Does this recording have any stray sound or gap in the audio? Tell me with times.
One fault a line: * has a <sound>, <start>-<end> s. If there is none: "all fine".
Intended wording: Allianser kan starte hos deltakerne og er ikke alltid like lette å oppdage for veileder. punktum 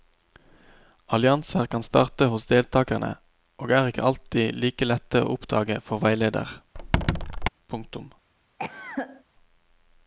* has a squeak, 6.7-7.5 s
* has a cough, 8.6-9.2 s